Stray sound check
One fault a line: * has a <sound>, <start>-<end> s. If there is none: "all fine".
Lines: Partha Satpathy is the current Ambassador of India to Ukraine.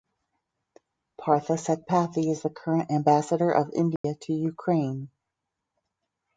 * has a dropout, 4.0-4.0 s